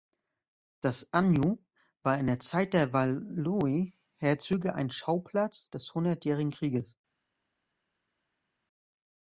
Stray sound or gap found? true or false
false